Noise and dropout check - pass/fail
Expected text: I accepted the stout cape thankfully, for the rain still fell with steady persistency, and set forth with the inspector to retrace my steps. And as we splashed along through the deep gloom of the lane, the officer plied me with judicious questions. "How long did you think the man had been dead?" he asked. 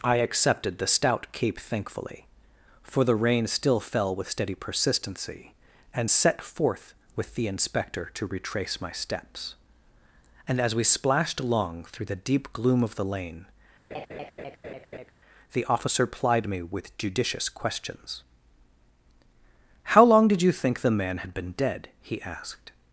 fail